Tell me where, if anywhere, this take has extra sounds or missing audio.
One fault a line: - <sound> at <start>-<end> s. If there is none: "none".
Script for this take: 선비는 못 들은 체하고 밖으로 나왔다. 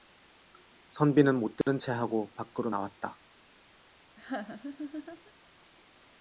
- dropout at 1.6-1.7 s
- laugh at 4.2-5.3 s